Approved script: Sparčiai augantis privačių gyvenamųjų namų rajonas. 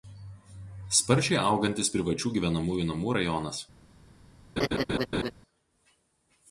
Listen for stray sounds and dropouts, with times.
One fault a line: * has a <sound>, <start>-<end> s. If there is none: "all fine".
* has a laugh, 4.6-5.3 s